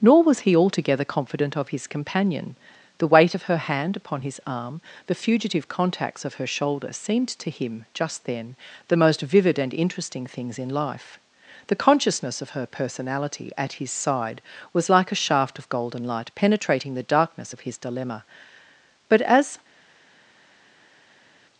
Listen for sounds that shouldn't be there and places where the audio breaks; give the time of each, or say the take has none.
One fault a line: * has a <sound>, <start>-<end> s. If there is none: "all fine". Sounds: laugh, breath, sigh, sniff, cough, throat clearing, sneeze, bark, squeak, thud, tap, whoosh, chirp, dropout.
all fine